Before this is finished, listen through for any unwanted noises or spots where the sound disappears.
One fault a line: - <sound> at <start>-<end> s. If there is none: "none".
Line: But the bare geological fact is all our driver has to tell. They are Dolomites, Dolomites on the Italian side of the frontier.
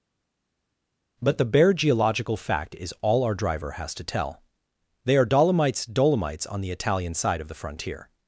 none